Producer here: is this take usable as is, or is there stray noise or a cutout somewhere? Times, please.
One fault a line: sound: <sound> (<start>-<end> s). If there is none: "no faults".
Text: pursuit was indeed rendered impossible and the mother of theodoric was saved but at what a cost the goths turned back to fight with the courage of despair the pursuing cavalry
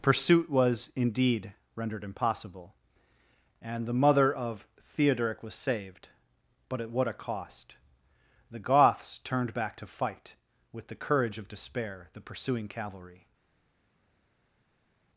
no faults